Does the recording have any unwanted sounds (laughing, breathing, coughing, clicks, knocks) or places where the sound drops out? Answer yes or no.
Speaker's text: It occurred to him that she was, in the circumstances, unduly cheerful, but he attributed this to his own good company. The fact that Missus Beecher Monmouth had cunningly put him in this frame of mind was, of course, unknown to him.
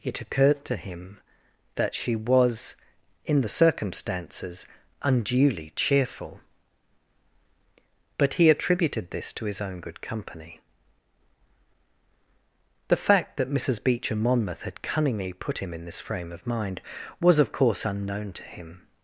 no